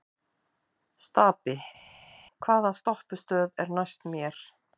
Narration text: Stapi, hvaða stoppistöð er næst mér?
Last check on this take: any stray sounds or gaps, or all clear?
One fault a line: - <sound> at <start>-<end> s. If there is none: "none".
none